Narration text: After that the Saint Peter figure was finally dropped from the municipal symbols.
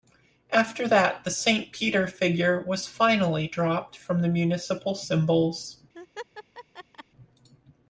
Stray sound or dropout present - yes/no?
yes